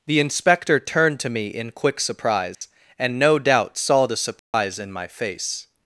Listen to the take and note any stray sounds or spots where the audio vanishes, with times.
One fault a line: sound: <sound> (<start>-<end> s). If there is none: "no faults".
sound: dropout (2.5-2.6 s)
sound: dropout (4.4-4.5 s)